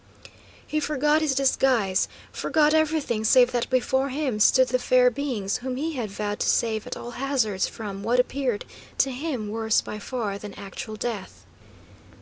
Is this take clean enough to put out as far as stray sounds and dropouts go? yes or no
yes